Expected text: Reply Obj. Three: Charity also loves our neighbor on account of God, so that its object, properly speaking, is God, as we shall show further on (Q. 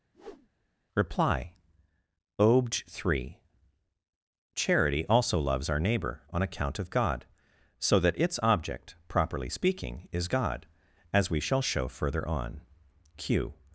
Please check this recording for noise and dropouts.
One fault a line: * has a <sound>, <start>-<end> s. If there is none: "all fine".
* has a whoosh, 0.1-0.5 s